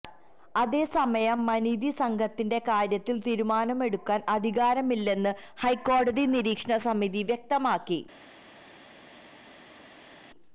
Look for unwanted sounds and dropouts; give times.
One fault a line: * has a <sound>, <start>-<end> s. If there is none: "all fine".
all fine